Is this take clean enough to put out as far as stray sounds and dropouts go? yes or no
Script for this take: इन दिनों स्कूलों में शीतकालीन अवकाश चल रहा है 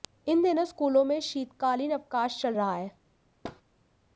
no